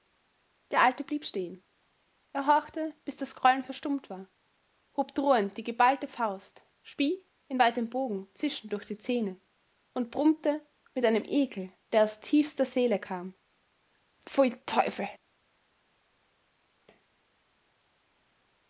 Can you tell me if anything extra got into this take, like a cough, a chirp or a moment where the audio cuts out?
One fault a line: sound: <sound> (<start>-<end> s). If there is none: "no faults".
no faults